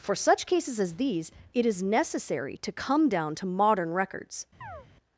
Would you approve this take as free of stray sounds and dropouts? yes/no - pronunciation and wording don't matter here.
no